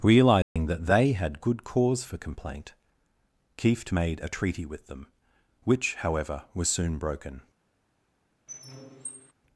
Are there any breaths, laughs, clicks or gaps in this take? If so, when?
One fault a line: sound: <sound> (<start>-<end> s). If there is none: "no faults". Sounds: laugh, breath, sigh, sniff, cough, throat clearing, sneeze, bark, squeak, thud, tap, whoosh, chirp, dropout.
sound: dropout (0.4-0.6 s)
sound: squeak (8.5-9.3 s)